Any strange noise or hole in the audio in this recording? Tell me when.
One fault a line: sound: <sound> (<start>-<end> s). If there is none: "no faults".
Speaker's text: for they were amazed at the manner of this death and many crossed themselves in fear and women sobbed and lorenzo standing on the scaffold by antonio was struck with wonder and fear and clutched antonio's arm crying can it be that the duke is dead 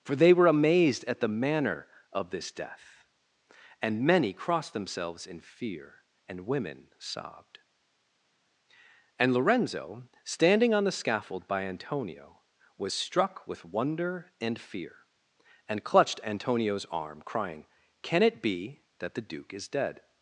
no faults